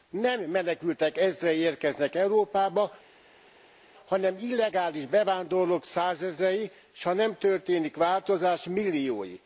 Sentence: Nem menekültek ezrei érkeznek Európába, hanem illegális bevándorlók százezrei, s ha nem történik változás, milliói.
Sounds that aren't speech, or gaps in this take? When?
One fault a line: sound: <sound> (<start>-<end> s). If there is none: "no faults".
no faults